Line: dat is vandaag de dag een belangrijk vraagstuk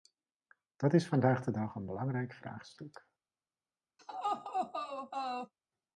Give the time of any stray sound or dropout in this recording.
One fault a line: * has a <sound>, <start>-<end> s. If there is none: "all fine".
* has a laugh, 4.0-5.5 s